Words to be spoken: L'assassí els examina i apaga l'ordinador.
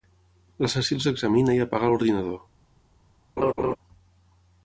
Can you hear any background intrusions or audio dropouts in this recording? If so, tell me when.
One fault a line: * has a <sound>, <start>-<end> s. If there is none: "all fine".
* has a laugh, 3.4-3.8 s